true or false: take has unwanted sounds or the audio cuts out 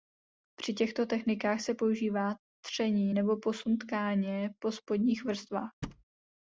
true